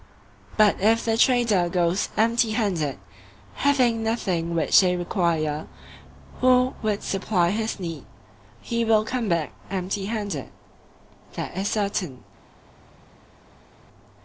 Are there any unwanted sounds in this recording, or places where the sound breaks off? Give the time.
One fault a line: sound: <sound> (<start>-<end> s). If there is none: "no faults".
no faults